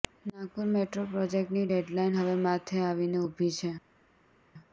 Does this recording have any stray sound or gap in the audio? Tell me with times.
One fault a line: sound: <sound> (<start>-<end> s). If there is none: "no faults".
no faults